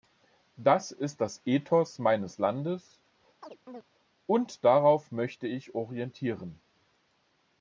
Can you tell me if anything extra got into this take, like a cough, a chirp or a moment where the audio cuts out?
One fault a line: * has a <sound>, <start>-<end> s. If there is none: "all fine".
* has a chirp, 3.4-3.8 s